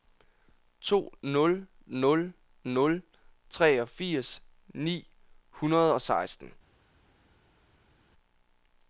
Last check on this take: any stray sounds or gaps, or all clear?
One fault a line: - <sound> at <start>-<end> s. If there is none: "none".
none